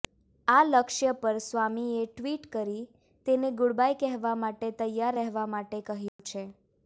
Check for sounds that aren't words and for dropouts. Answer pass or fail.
fail